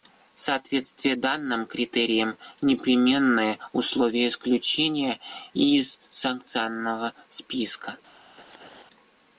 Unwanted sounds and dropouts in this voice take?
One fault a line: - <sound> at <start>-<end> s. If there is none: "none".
- laugh at 8.4-8.8 s